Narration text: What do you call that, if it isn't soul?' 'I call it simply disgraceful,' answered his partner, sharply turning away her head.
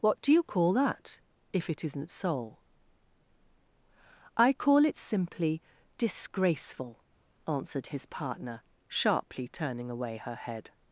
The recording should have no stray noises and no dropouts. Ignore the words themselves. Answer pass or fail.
pass